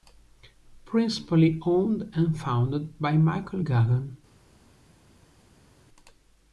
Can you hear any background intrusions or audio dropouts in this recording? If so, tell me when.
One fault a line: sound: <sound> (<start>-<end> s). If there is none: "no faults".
no faults